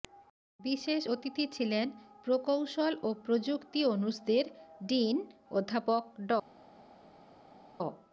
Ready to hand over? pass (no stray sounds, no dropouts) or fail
pass